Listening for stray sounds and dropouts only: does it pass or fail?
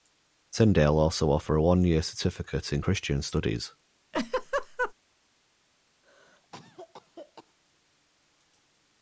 fail